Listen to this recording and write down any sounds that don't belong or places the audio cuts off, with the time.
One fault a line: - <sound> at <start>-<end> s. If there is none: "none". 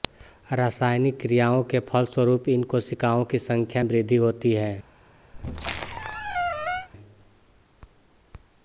- squeak at 5.3-6.9 s